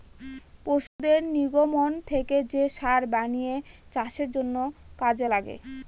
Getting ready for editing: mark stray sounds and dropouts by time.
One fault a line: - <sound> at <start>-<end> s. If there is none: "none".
- dropout at 0.9-1.0 s